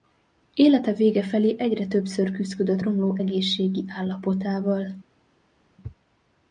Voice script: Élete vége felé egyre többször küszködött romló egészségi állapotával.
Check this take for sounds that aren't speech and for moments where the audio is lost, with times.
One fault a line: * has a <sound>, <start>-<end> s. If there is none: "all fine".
all fine